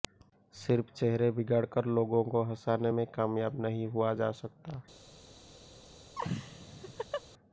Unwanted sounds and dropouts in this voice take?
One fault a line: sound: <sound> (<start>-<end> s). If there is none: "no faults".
sound: laugh (6.1-7.2 s)